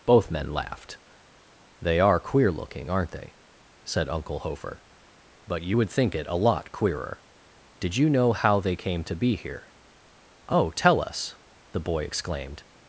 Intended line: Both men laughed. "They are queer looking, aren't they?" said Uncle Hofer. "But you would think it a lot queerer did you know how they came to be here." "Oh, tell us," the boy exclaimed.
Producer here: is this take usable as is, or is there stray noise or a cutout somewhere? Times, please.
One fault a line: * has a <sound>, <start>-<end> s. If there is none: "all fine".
all fine